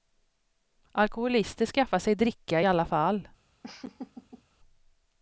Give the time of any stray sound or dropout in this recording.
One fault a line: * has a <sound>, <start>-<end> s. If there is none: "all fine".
* has a laugh, 3.6-4.4 s